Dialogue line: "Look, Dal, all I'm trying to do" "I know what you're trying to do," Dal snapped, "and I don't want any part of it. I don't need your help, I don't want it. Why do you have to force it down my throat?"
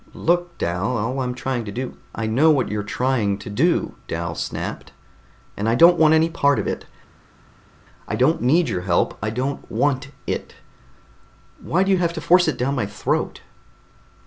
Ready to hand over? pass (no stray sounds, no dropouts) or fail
pass